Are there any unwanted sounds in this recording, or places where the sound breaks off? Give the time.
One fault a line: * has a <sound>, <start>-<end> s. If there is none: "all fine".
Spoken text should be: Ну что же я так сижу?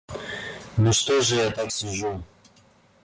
all fine